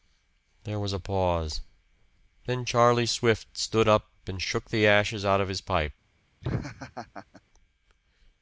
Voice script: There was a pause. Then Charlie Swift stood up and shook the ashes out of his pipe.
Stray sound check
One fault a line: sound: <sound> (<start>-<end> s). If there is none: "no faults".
sound: laugh (6.4-7.4 s)